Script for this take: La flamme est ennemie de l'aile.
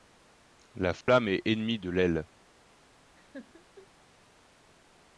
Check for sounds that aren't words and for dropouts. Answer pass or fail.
fail